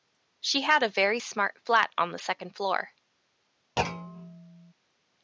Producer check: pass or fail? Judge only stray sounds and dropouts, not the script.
fail